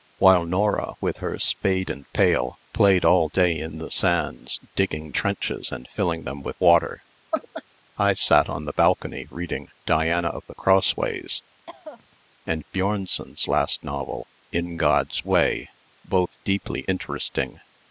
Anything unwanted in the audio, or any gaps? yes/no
yes